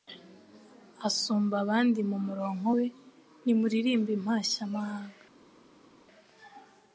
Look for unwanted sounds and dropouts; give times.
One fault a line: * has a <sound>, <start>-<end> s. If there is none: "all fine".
all fine